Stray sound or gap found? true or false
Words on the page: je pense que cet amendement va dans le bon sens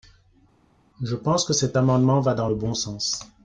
false